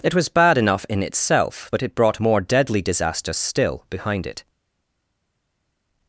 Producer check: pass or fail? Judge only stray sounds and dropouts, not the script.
pass